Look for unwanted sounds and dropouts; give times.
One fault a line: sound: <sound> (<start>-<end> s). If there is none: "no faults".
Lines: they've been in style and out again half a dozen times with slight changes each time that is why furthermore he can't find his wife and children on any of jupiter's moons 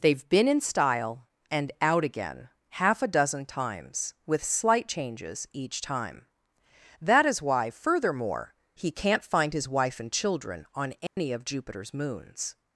sound: dropout (11.1-11.2 s)